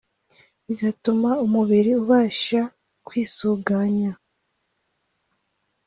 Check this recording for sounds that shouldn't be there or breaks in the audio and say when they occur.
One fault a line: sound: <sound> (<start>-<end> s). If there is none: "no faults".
no faults